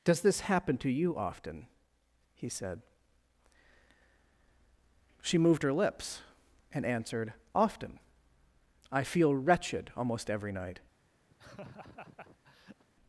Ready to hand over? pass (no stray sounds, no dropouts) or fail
fail